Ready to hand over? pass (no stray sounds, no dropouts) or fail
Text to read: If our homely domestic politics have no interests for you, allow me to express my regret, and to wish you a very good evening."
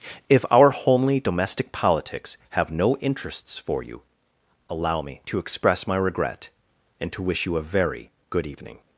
pass